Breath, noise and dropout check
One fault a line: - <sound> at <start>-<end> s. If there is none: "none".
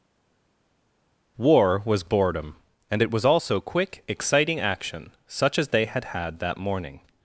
none